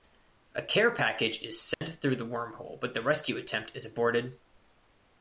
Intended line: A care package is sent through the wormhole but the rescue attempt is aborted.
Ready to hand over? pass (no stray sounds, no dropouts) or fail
fail